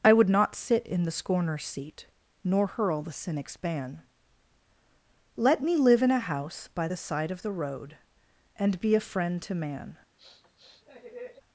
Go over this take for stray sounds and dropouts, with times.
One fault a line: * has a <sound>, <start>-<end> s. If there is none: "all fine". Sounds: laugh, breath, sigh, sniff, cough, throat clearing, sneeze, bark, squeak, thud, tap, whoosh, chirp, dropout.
* has a sniff, 10.2-11.4 s